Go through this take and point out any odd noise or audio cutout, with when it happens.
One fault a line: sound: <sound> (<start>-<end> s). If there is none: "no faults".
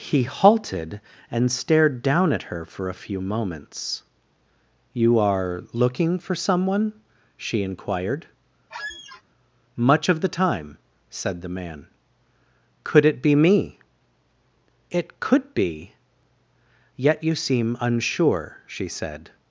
sound: squeak (8.7-9.2 s)